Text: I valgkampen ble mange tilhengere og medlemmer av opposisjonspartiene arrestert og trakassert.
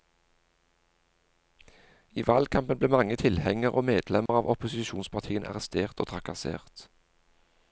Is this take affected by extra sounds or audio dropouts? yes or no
yes